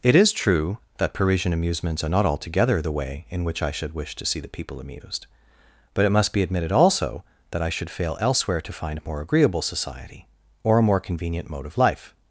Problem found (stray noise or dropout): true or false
false